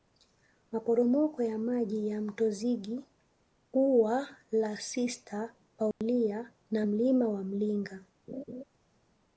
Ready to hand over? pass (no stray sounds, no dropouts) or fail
fail